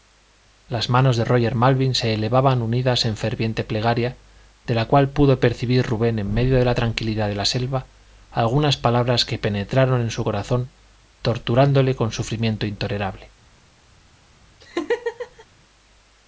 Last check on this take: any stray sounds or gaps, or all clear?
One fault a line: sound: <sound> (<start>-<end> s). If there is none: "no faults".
sound: laugh (14.6-15.5 s)